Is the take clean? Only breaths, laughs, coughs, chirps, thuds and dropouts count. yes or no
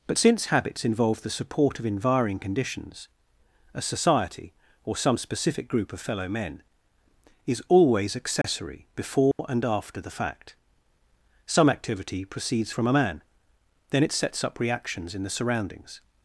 no